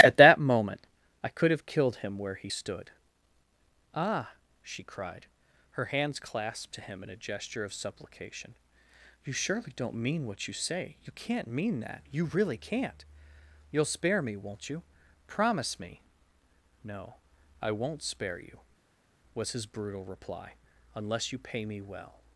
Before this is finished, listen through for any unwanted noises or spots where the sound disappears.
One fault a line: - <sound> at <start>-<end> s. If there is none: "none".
none